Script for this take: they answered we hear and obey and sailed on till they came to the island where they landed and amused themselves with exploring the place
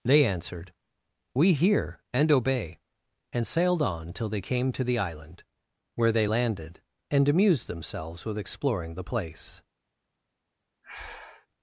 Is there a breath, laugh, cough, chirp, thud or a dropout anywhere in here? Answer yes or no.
yes